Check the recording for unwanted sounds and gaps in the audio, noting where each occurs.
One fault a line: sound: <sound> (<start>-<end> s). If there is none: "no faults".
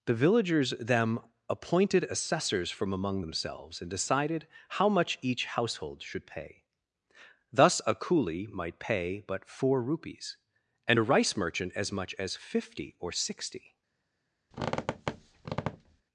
sound: squeak (14.5-16.0 s)